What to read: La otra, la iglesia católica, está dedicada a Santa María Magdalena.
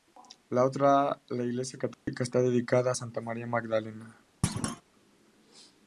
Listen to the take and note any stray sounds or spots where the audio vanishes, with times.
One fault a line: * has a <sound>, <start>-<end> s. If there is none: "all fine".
* has a dropout, 1.9-2.1 s
* has a thud, 4.4-4.8 s